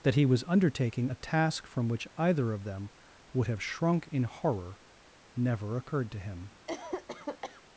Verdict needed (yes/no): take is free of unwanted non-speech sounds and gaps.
no